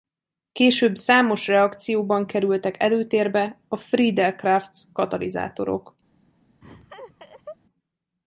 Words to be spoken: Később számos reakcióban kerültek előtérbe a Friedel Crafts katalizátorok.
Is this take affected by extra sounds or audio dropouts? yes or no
yes